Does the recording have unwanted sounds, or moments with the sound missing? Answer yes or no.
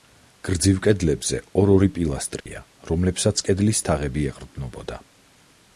yes